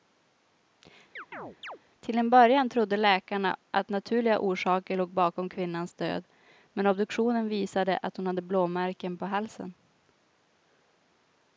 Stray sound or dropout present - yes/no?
yes